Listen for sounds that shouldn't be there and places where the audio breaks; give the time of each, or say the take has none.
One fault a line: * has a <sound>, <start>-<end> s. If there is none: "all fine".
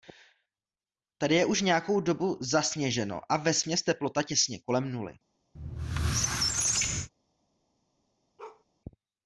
* has a squeak, 5.5-7.1 s
* has a bark, 8.4-8.6 s